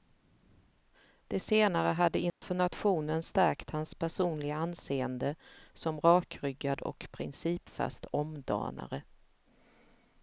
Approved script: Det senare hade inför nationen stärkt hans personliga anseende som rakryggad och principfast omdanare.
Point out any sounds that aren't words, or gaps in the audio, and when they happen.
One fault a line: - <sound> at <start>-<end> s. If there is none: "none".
- dropout at 2.3-2.4 s